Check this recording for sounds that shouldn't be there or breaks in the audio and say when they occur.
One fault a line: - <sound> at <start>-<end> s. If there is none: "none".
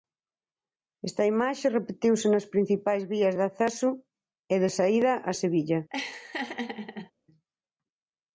- laugh at 5.9-7.1 s